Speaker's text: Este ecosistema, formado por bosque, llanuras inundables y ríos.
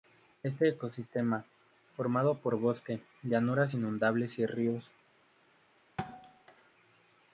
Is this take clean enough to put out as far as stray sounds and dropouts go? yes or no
no